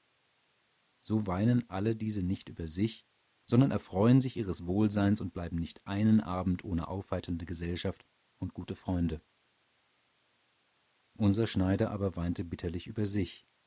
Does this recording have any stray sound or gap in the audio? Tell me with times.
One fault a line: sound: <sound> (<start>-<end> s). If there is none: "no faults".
no faults